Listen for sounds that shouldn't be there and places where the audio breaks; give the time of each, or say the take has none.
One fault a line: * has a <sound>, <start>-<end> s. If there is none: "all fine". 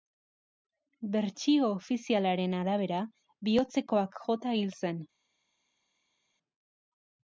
all fine